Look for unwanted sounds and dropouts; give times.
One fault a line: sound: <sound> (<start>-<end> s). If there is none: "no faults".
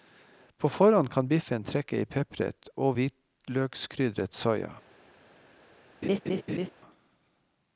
sound: laugh (6.0-6.7 s)